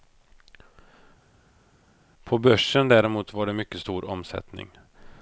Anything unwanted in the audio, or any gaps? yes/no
no